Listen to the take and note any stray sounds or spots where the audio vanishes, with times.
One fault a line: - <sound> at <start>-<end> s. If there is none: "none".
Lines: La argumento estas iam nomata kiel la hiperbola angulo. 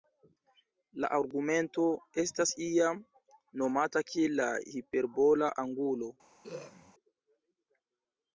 - throat clearing at 6.4-6.9 s